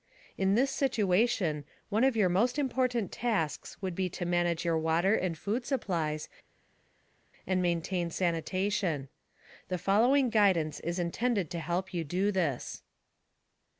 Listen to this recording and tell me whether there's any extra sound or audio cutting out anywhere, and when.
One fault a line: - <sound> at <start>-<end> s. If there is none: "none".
none